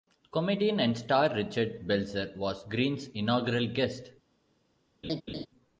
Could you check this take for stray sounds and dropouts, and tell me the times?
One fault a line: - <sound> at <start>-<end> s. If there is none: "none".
- laugh at 5.0-5.5 s